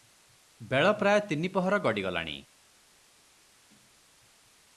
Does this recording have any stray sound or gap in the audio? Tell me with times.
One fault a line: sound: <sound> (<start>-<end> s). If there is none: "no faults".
no faults